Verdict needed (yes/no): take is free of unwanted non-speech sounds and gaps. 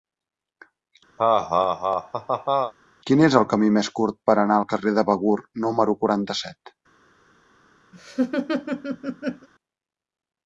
no